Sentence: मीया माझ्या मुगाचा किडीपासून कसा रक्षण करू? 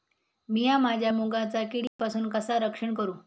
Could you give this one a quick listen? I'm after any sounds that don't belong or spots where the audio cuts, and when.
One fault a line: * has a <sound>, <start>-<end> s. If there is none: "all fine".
* has a dropout, 1.9-2.0 s